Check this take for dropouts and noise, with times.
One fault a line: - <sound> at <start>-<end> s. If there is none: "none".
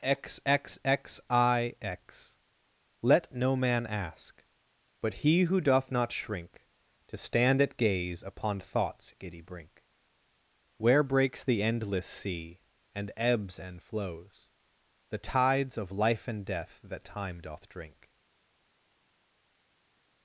none